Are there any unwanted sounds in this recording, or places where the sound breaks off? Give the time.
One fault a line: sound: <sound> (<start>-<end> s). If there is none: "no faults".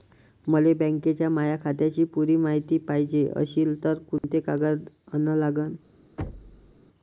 sound: dropout (4.2-4.2 s)
sound: thud (6.2-6.7 s)